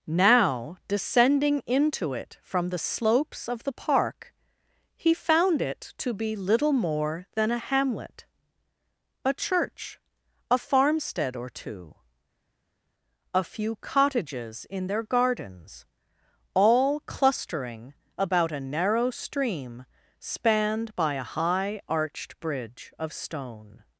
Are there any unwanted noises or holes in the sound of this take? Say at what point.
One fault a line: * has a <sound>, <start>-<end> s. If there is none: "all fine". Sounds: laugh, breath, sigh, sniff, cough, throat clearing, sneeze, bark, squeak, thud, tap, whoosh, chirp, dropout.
all fine